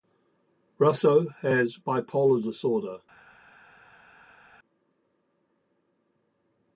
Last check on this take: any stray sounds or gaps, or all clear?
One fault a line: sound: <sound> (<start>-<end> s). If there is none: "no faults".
no faults